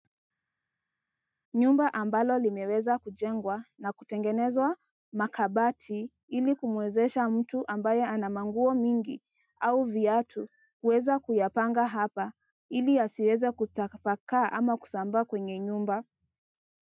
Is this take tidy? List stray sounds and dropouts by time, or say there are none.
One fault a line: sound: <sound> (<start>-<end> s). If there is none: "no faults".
no faults